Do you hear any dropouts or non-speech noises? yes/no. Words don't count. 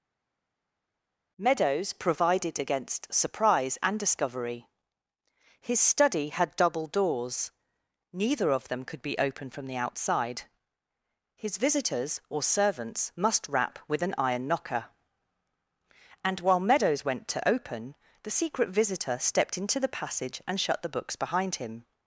no